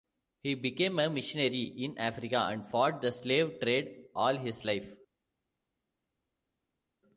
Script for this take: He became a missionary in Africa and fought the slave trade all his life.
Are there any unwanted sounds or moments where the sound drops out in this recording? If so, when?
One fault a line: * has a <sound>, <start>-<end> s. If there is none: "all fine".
all fine